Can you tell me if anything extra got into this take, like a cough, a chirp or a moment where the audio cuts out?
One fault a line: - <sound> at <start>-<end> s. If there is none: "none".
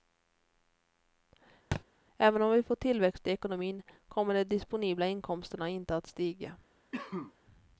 - thud at 1.7-1.8 s
- cough at 6.9-7.3 s